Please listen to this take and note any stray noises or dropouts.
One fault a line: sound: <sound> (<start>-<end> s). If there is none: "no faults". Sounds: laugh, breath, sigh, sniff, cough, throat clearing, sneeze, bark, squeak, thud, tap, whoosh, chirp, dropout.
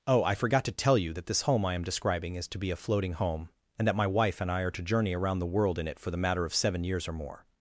no faults